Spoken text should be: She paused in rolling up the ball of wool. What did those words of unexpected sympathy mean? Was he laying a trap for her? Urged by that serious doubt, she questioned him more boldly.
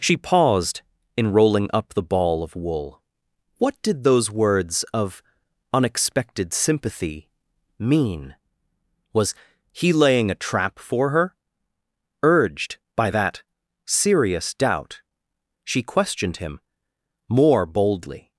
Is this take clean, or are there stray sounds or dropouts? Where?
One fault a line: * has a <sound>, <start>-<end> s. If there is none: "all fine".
all fine